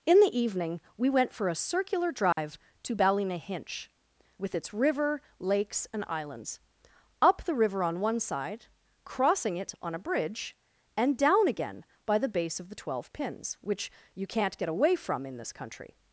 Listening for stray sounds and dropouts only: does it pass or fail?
fail